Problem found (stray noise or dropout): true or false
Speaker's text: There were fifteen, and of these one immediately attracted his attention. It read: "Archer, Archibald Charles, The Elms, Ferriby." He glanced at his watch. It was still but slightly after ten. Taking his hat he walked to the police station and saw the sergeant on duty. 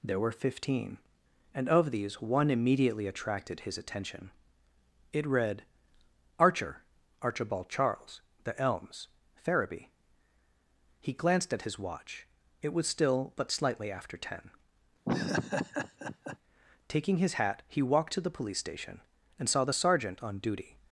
true